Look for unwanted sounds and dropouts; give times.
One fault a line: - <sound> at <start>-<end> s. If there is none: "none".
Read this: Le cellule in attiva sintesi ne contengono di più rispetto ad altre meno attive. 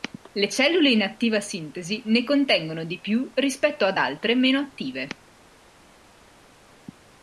none